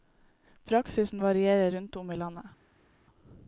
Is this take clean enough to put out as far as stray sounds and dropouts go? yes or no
yes